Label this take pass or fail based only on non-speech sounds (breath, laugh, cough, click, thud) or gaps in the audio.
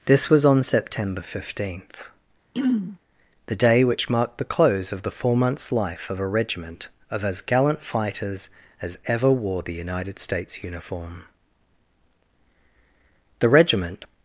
fail